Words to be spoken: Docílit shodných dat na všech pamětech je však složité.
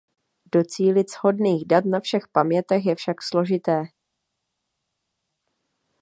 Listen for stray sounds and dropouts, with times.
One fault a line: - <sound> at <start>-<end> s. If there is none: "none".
none